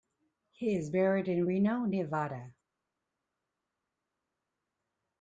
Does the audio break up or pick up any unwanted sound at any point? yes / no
no